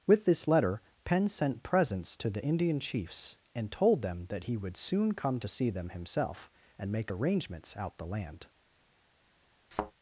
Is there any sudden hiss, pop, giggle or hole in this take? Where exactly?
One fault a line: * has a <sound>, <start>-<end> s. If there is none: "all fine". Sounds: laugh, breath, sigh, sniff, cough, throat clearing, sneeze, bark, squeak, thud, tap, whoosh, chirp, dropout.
* has a thud, 9.7-9.9 s